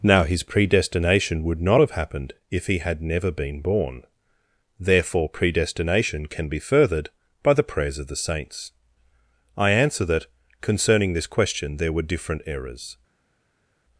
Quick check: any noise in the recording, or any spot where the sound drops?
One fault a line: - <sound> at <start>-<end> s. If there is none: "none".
none